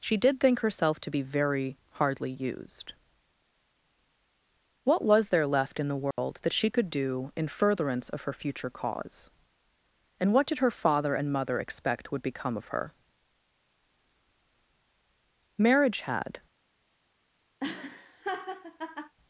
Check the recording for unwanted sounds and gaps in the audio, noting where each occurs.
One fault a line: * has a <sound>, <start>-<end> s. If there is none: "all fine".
* has a dropout, 6.1-6.2 s
* has a laugh, 17.6-19.1 s